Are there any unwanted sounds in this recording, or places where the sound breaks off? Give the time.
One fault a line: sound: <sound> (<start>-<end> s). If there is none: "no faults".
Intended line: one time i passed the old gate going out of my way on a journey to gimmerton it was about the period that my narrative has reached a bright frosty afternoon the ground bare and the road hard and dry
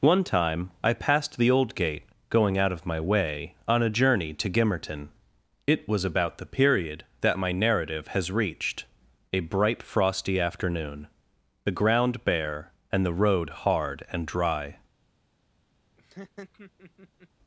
sound: laugh (16.0-17.3 s)